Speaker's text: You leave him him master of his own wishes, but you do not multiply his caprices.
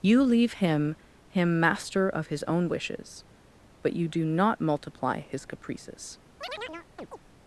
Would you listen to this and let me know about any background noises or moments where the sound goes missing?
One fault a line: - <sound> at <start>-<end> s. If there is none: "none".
- chirp at 6.4-7.2 s